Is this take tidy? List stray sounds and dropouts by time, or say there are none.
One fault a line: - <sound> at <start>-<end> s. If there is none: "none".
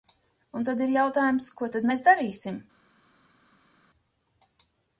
none